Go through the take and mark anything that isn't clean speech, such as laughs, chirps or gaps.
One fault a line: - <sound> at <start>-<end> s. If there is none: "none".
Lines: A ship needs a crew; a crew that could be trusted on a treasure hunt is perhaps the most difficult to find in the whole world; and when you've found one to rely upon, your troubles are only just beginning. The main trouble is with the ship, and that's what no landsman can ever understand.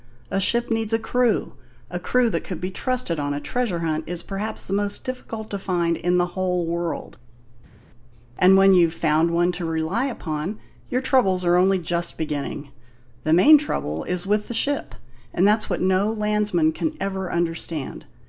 none